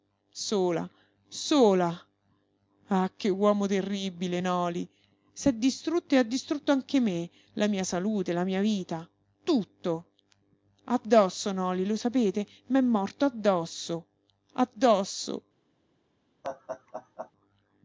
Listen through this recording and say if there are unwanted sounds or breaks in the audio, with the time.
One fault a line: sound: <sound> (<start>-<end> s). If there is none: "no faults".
sound: laugh (16.4-17.3 s)